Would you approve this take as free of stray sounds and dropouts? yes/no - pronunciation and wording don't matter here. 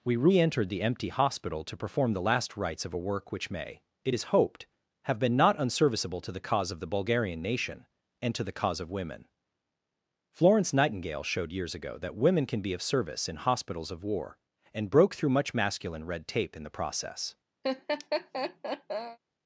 no